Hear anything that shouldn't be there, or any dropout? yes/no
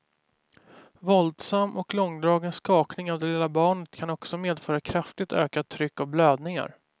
no